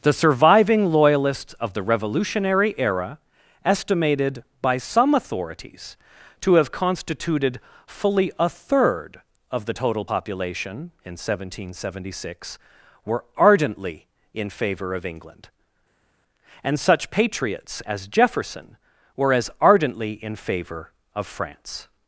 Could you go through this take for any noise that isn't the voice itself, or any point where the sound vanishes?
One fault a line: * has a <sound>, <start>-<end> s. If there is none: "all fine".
all fine